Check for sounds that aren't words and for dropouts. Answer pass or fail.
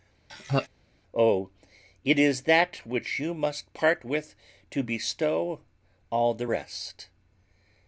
fail